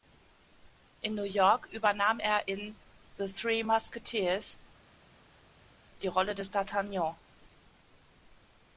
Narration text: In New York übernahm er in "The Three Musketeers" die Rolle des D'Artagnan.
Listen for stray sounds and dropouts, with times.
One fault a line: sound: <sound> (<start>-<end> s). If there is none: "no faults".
no faults